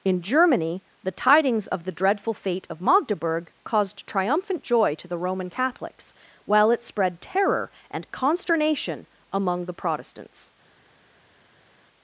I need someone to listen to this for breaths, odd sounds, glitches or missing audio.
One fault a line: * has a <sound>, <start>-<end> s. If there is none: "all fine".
all fine